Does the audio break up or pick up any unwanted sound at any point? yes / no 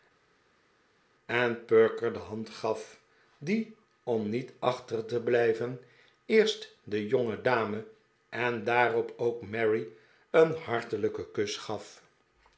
no